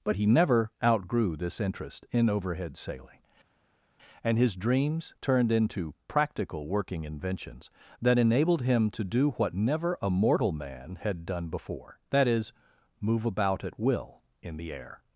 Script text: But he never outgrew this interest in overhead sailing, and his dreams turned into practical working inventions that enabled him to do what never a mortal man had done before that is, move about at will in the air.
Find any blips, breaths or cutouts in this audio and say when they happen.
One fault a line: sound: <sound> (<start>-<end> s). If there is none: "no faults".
no faults